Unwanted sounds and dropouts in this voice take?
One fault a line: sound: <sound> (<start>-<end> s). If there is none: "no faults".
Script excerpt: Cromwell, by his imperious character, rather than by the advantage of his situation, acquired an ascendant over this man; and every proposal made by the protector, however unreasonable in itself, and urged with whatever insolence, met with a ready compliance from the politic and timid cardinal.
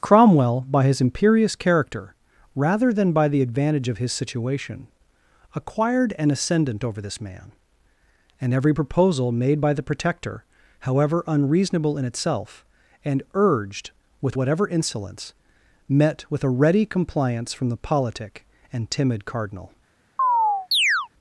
sound: chirp (20.2-21.1 s)